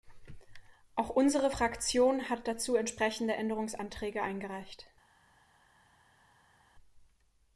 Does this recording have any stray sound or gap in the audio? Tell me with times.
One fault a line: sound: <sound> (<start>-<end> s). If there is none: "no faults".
no faults